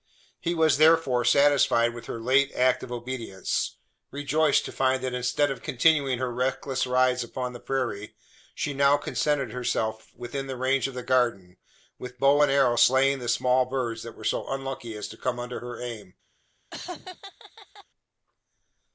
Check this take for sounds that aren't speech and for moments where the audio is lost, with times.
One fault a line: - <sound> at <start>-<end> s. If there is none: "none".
- laugh at 16.7-17.9 s